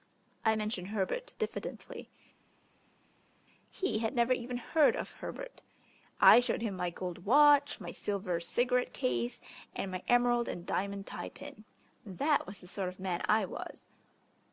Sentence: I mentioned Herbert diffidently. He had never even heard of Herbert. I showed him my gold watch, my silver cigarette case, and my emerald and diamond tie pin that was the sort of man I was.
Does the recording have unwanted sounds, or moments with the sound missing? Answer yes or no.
no